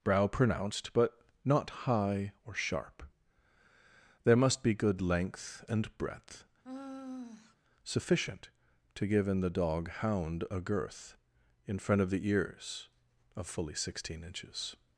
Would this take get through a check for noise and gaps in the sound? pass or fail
fail